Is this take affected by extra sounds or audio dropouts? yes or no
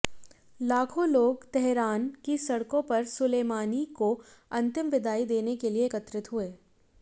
no